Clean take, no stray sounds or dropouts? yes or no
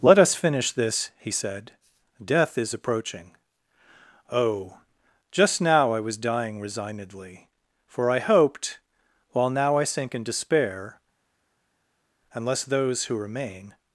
yes